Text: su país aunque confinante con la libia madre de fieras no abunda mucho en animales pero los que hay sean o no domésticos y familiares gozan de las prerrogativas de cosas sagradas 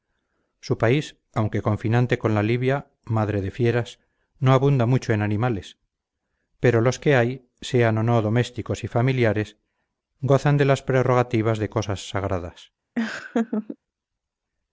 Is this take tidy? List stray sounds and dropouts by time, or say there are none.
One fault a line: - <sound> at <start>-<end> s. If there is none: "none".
- laugh at 13.0-13.8 s